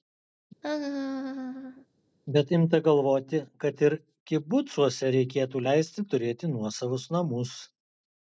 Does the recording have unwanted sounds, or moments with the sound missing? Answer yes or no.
yes